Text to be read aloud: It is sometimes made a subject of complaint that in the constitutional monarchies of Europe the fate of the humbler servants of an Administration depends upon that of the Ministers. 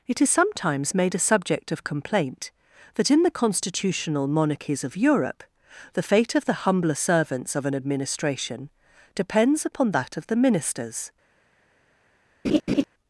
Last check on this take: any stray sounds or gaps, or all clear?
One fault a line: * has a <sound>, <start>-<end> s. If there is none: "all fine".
* has a laugh, 12.4-12.8 s